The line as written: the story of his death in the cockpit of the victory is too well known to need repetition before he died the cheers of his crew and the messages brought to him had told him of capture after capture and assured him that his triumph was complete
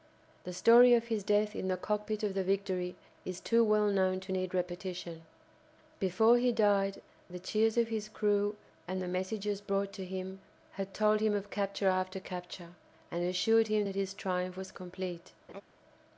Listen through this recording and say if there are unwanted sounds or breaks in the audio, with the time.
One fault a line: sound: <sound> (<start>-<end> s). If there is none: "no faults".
sound: laugh (15.5-15.6 s)